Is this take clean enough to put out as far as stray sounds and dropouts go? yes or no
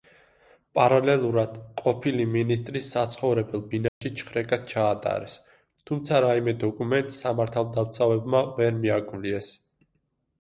no